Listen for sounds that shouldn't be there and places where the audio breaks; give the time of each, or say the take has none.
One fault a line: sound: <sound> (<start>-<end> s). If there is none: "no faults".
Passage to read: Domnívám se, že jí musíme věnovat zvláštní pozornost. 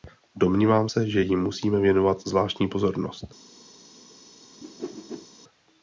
sound: whoosh (4.6-5.3 s)